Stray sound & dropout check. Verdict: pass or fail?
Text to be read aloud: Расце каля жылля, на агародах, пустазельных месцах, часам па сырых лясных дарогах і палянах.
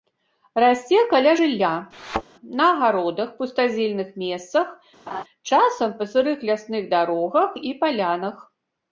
fail